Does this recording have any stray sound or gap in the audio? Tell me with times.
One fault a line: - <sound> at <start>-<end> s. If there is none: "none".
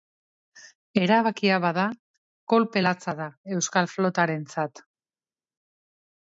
none